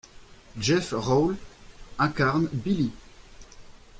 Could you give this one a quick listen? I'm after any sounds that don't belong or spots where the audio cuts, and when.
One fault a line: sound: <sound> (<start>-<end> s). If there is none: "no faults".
no faults